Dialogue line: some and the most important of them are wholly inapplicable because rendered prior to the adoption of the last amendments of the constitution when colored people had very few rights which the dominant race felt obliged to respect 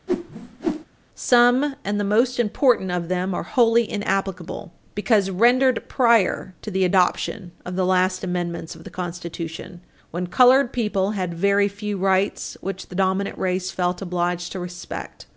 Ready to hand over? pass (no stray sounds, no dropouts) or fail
fail